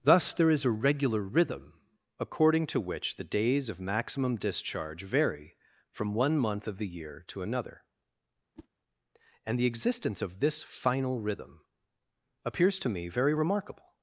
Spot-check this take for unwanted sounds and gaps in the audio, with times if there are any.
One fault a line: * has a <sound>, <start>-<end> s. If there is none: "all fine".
* has a whoosh, 8.6-8.7 s